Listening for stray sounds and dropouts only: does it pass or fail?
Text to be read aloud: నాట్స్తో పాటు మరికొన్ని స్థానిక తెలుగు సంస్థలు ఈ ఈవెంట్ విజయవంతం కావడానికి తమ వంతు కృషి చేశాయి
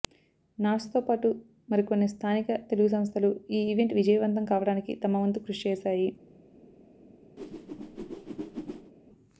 fail